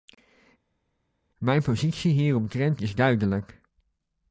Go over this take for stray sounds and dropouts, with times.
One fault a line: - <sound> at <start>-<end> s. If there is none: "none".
none